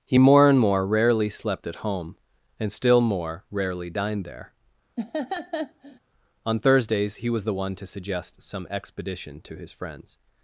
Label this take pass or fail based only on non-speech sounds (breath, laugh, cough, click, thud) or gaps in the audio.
fail